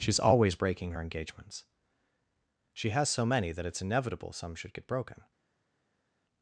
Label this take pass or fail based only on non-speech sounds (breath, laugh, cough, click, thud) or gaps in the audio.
pass